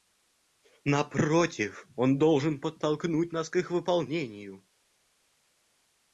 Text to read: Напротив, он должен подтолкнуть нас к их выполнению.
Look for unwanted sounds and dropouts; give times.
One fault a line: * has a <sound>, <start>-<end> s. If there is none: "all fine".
all fine